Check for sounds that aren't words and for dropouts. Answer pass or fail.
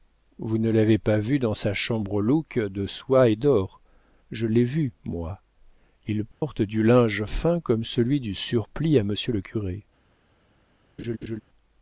fail